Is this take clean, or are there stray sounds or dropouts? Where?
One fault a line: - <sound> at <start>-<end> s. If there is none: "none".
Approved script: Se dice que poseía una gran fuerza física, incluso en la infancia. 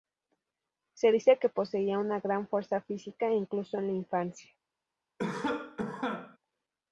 - cough at 5.2-6.4 s